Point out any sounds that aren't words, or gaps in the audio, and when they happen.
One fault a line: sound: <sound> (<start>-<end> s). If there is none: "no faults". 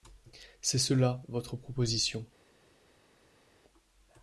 no faults